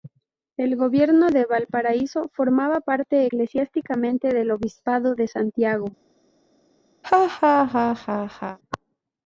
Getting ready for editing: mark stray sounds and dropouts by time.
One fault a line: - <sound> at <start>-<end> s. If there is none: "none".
- laugh at 7.0-8.6 s